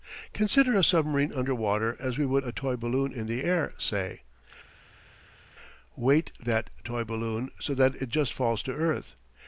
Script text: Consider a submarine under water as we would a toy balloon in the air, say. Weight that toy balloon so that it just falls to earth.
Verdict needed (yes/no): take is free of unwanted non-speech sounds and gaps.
yes